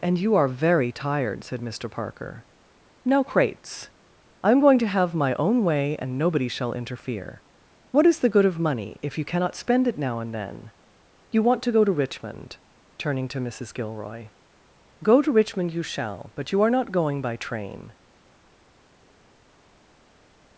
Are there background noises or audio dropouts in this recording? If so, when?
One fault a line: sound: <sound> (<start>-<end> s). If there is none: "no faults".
no faults